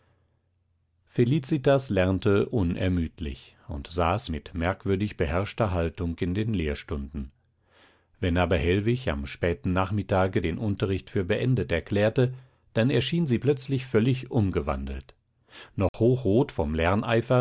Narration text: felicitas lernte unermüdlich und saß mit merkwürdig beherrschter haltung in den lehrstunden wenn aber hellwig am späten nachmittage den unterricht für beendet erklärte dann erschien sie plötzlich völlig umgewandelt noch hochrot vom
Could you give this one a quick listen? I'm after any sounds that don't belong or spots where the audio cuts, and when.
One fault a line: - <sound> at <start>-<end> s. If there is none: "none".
- dropout at 15.9-15.9 s